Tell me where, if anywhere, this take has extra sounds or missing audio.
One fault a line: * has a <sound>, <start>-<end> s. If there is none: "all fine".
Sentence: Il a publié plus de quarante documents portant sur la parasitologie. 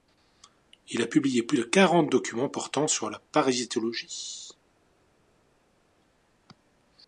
all fine